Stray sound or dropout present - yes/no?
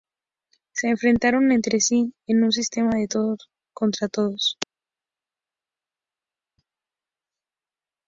no